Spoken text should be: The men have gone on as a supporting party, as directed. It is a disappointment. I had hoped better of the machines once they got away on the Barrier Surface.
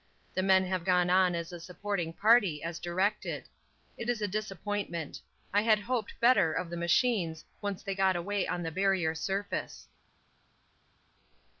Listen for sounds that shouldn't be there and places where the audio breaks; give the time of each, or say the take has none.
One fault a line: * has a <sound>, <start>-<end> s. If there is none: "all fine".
all fine